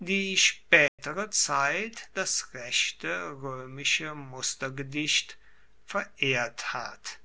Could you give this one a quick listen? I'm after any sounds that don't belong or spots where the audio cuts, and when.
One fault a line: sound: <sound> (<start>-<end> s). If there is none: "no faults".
sound: dropout (0.9-1.0 s)